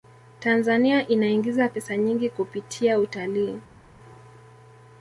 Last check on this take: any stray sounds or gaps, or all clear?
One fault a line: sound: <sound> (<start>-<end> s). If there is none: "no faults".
no faults